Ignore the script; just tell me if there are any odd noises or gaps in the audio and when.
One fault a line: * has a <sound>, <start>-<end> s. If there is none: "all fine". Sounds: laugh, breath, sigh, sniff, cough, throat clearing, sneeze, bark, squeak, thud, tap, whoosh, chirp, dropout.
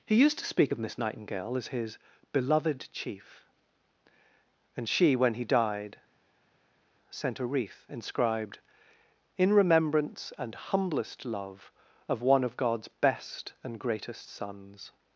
all fine